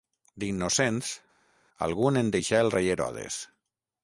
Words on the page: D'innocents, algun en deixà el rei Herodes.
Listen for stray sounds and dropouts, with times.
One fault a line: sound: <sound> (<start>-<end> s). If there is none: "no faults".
no faults